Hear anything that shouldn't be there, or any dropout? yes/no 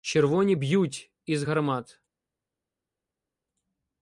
no